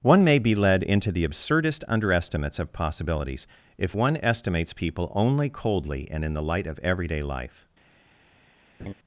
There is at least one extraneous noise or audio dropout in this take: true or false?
true